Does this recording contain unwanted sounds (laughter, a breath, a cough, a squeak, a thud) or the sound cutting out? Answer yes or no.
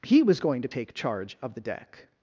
no